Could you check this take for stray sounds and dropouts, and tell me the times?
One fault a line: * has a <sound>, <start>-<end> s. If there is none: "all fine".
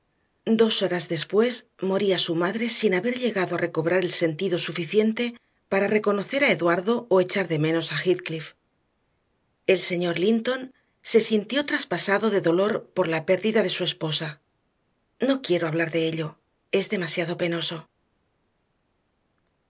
all fine